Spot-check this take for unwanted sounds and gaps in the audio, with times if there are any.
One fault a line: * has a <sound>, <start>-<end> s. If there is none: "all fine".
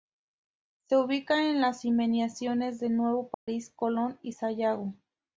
* has a dropout, 3.3-3.5 s